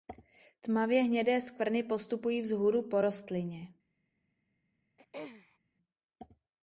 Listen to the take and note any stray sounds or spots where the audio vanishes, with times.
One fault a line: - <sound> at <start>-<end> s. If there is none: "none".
- throat clearing at 5.0-5.6 s